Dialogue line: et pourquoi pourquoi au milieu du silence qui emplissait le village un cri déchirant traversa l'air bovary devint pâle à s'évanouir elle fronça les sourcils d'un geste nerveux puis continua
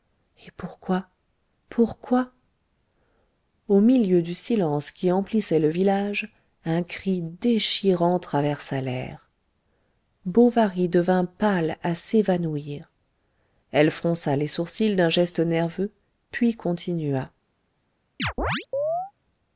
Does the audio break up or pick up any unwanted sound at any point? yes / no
yes